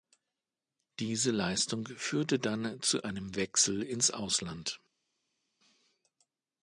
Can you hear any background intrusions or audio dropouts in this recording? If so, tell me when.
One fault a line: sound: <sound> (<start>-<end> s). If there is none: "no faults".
no faults